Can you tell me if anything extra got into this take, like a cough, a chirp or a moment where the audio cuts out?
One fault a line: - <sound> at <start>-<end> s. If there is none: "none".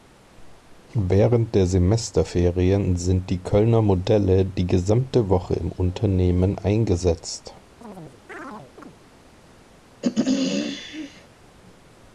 - chirp at 7.8-9.0 s
- throat clearing at 10.0-11.3 s